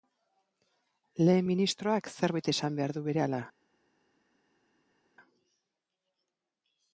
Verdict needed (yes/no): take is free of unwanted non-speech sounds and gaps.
yes